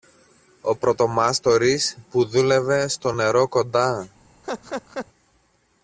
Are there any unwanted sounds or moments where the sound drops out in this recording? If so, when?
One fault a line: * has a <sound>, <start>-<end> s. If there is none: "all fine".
* has a laugh, 4.4-5.1 s